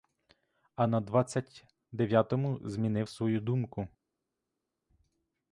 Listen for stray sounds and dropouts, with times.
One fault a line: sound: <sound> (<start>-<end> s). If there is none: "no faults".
no faults